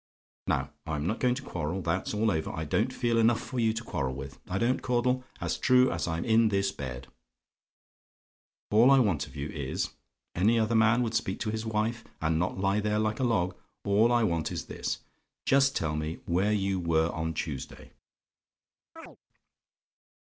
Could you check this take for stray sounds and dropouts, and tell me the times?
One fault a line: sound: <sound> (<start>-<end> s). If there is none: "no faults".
sound: chirp (19.0-19.2 s)